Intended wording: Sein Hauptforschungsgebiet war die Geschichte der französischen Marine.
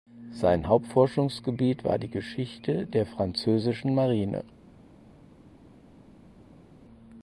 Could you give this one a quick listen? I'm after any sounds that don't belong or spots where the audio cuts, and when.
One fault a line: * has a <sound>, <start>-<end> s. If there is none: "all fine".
all fine